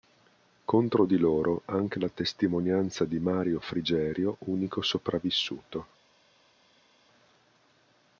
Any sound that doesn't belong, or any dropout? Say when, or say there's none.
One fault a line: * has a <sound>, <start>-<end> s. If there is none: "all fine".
all fine